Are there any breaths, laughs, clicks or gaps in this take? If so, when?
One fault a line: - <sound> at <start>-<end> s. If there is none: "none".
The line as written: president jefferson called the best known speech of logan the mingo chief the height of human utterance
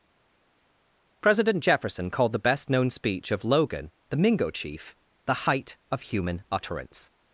none